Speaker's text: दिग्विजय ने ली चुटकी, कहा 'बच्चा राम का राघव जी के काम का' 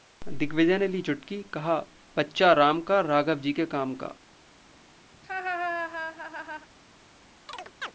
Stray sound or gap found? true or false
true